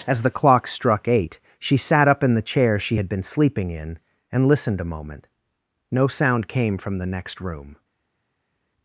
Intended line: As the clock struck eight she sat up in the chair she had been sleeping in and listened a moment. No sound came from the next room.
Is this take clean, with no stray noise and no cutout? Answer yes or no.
yes